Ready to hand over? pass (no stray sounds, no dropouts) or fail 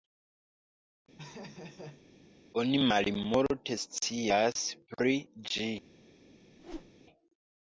fail